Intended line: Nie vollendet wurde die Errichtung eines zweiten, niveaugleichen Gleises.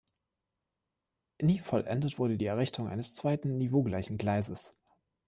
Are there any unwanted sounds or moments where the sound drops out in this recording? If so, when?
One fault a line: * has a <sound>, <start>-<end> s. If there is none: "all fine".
all fine